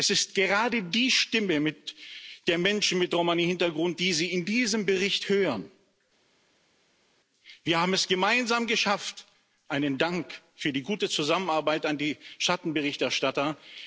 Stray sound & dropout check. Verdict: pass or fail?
pass